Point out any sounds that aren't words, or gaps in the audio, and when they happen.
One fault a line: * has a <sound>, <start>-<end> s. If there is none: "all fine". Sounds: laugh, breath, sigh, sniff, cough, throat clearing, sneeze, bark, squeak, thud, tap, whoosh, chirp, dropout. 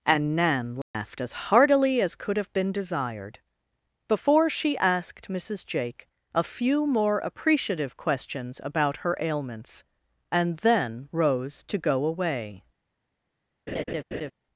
* has a dropout, 0.8-0.9 s
* has a laugh, 13.7-14.3 s